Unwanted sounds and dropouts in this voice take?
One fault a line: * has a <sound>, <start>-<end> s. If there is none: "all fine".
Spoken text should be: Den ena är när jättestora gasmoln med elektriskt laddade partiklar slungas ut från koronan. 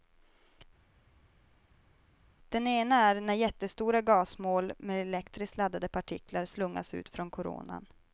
all fine